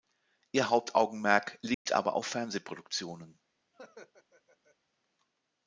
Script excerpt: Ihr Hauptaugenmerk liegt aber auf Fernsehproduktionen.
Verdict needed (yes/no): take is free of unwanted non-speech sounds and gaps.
no